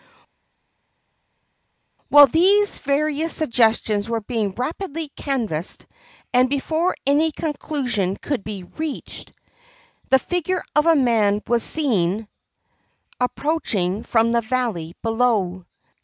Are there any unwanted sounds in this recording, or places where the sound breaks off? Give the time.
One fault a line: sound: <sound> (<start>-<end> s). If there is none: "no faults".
no faults